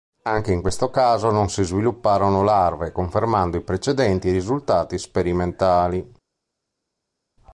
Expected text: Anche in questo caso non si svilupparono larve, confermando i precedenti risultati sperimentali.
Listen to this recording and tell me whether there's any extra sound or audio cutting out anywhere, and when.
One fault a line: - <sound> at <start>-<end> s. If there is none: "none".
none